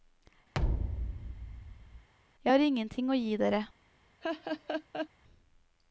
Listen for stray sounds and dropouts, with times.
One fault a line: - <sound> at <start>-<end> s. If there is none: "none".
- thud at 0.5-2.1 s
- laugh at 4.2-5.1 s